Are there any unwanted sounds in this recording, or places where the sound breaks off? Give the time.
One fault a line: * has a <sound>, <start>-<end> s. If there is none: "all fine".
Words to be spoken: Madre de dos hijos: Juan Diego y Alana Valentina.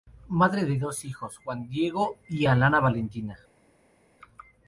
all fine